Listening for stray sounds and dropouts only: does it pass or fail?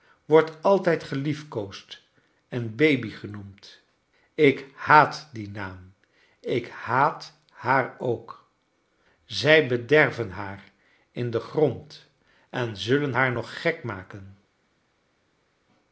pass